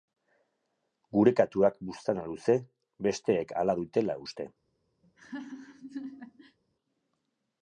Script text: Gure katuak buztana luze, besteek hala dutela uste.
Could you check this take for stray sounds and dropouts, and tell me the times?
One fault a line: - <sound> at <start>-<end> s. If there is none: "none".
- laugh at 5.0-6.6 s